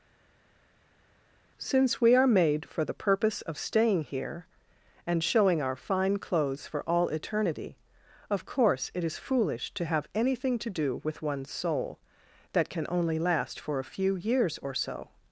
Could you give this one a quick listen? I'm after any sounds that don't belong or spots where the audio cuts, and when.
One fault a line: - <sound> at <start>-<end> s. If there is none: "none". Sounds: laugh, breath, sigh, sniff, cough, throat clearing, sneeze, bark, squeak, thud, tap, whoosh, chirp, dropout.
none